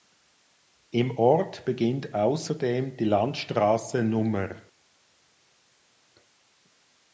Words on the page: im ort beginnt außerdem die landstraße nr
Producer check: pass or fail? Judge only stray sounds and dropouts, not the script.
pass